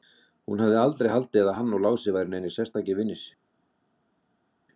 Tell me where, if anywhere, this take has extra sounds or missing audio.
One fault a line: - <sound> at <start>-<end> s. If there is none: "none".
none